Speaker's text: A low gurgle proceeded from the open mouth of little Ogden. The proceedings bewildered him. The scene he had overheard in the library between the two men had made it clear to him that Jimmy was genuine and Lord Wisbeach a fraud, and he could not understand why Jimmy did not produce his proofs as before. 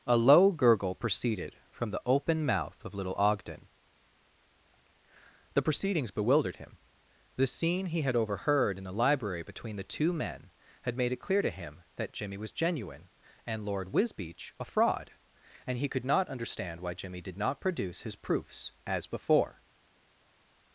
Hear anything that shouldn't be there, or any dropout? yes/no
no